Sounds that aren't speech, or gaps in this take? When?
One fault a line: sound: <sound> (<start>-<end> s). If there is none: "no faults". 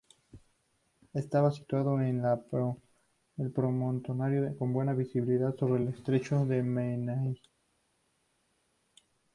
no faults